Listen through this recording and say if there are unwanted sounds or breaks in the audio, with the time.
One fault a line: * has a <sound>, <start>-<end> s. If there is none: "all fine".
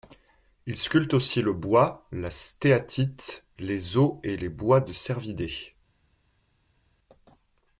all fine